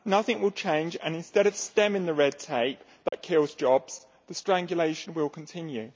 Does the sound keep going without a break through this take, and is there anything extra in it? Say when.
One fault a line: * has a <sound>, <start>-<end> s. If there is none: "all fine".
* has a dropout, 3.1-3.1 s